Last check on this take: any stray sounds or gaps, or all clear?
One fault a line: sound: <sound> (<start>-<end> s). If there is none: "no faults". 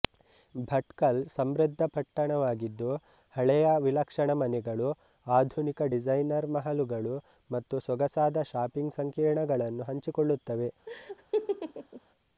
sound: laugh (10.9-12.0 s)